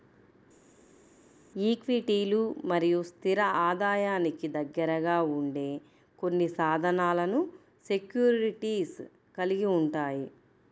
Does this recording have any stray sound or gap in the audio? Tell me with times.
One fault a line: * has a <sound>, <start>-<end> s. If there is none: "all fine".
all fine